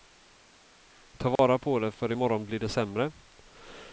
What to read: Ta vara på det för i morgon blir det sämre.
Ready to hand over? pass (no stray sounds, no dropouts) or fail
fail